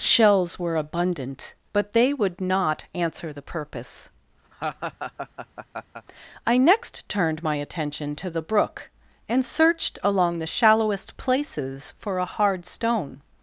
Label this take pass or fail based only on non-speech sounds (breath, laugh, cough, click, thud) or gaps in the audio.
fail